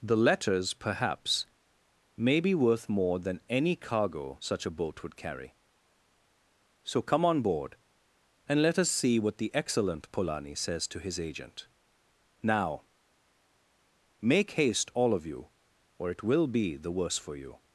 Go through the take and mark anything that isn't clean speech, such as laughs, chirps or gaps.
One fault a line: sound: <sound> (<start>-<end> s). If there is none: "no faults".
no faults